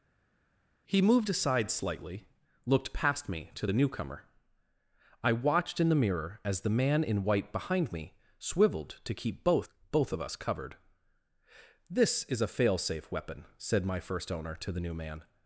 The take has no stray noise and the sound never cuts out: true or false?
true